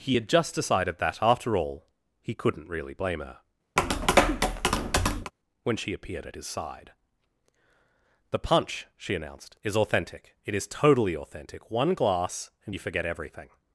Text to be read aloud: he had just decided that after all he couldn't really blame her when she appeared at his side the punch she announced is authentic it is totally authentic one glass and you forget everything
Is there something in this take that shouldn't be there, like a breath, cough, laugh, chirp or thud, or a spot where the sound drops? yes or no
yes